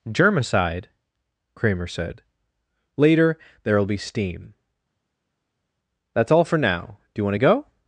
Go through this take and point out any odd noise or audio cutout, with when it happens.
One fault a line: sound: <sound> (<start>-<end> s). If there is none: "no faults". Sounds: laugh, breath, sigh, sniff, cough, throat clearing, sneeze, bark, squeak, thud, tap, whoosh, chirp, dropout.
no faults